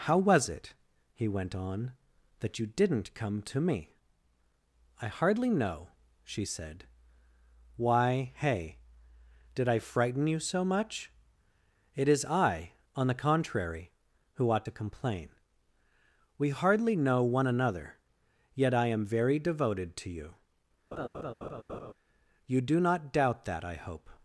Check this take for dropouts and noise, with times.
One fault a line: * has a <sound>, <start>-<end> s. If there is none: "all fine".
* has a laugh, 20.9-21.9 s